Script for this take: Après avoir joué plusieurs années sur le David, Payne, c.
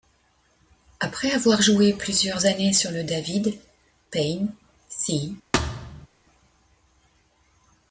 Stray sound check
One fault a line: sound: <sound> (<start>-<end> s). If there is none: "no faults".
sound: thud (5.5-6.1 s)